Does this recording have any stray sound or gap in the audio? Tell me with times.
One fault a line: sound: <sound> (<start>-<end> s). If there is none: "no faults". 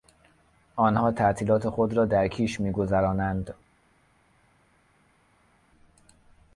no faults